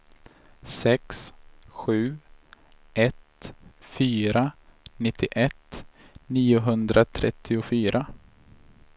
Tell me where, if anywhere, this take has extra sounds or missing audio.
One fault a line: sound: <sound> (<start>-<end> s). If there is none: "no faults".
no faults